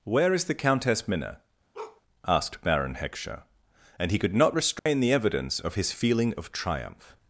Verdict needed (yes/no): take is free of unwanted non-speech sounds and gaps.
no